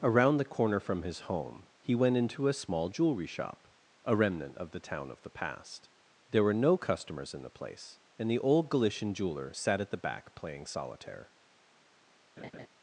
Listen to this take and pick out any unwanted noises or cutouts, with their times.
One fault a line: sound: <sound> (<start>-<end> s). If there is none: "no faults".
sound: laugh (12.4-12.7 s)